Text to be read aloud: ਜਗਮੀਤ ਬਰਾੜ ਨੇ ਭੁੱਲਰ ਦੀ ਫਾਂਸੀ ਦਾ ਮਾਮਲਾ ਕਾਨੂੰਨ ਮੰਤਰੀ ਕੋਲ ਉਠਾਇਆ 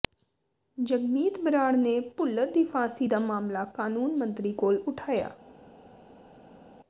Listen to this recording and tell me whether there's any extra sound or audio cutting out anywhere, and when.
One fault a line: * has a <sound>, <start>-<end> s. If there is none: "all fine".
all fine